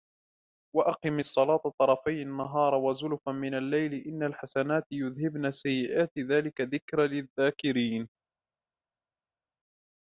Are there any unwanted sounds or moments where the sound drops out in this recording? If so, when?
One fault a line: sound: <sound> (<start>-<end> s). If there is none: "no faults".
no faults